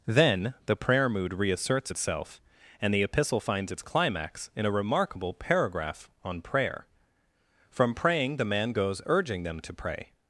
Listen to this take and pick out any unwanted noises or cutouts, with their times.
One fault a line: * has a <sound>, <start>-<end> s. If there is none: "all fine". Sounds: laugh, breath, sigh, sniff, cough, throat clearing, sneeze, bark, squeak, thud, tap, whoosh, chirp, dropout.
all fine